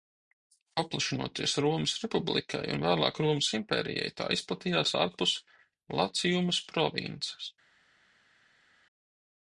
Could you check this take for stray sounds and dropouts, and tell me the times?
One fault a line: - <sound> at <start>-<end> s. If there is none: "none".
none